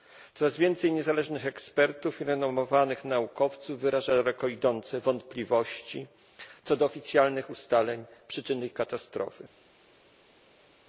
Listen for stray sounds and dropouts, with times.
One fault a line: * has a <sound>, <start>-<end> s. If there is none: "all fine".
all fine